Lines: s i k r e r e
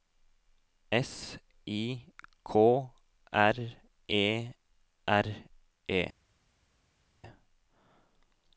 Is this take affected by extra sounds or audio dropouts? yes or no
no